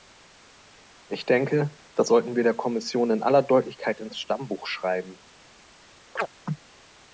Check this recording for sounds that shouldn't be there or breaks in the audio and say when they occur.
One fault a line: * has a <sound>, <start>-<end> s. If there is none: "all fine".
* has a chirp, 6.2-6.3 s